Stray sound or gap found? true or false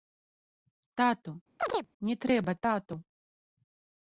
true